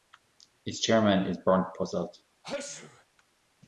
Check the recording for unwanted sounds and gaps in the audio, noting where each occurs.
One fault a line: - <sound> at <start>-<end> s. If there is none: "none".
- sneeze at 2.4-3.1 s